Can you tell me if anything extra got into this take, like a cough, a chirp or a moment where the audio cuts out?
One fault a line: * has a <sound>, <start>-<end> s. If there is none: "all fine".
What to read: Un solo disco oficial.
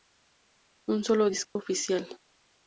* has a dropout, 1.4-1.6 s